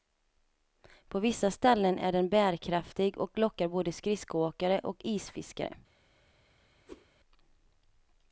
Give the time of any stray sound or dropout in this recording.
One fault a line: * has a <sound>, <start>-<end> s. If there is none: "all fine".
* has a whoosh, 6.9-7.1 s